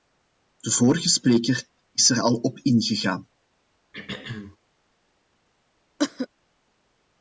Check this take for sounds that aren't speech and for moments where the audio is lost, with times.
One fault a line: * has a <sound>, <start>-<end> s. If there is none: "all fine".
* has a throat clearing, 3.9-4.6 s
* has a cough, 6.0-6.3 s